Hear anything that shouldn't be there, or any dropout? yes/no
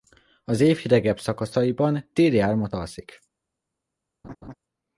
yes